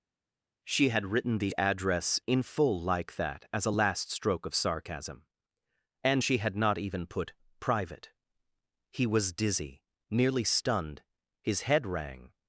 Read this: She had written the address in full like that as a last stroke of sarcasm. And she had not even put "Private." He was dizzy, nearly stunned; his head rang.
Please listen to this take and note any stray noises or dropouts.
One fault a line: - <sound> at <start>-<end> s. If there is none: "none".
none